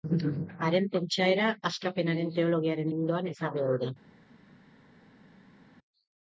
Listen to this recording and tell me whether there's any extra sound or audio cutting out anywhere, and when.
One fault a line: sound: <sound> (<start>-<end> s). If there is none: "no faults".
no faults